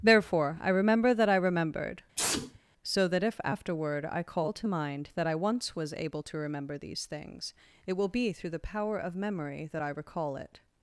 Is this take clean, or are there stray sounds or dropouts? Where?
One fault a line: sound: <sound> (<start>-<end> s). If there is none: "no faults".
sound: sneeze (2.2-2.6 s)